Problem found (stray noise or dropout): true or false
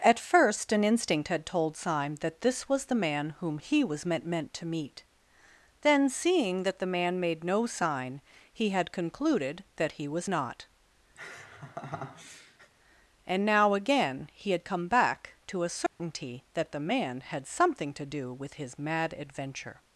true